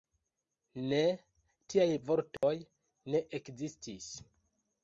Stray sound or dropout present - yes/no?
yes